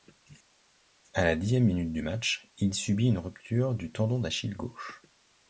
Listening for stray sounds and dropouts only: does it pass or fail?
pass